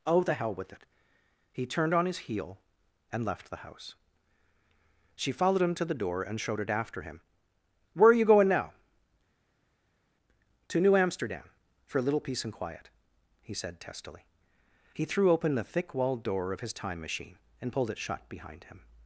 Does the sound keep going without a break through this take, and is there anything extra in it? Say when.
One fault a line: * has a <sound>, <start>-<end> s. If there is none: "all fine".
all fine